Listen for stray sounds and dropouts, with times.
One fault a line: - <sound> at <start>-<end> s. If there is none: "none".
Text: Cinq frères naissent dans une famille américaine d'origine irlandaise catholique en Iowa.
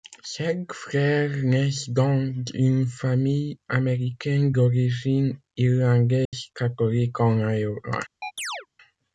- dropout at 6.3-6.3 s
- chirp at 8.2-8.7 s